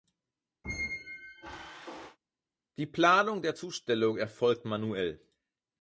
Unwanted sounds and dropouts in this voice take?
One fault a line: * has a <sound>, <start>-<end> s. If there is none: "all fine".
* has a squeak, 0.6-2.2 s